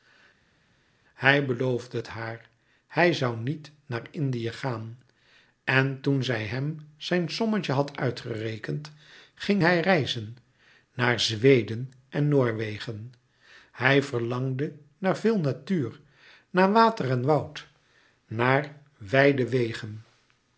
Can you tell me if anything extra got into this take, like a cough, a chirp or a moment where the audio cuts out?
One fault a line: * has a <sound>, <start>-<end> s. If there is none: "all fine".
all fine